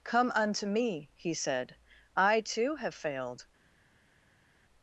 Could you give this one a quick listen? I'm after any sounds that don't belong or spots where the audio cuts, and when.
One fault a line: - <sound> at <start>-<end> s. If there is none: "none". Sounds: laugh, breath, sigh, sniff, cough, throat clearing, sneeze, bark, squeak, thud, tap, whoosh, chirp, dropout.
none